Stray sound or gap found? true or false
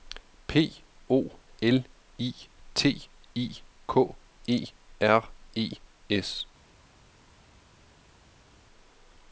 false